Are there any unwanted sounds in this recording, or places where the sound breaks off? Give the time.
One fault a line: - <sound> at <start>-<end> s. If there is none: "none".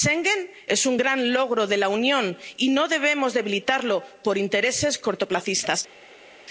none